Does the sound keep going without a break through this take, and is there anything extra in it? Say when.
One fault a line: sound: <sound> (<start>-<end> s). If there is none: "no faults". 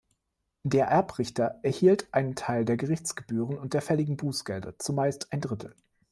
no faults